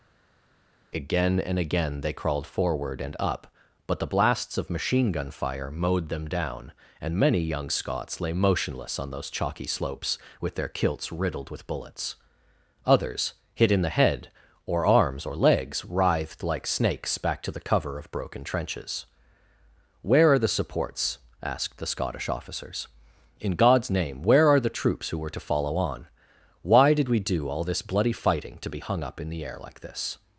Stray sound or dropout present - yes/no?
no